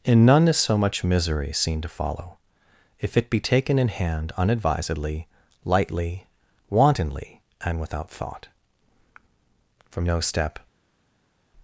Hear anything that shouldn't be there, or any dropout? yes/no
no